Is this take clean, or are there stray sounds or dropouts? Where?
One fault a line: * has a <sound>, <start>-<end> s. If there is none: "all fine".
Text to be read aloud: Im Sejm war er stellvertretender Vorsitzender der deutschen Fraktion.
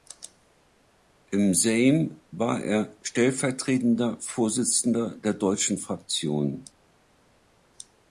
all fine